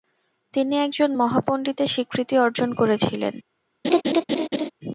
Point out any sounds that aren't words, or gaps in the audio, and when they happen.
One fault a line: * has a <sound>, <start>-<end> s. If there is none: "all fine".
* has a laugh, 3.8-4.7 s